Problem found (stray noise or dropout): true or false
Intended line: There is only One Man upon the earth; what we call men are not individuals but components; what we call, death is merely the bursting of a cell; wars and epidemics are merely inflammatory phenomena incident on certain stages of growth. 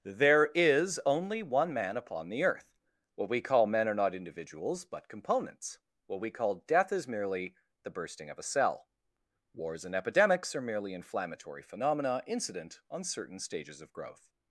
false